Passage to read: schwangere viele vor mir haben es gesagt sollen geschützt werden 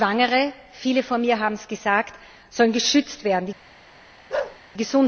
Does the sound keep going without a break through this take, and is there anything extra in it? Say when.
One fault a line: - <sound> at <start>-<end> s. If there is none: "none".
- bark at 4.3-4.6 s